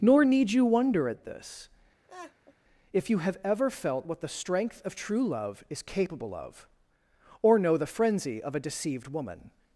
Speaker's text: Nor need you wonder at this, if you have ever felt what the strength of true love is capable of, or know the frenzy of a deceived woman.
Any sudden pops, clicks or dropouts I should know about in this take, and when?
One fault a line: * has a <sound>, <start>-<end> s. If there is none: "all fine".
* has a laugh, 2.1-2.5 s